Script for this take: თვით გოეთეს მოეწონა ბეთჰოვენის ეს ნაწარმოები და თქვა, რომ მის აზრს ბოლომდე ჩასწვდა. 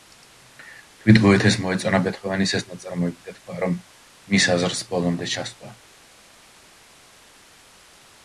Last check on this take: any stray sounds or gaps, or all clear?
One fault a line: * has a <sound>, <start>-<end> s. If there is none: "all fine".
all fine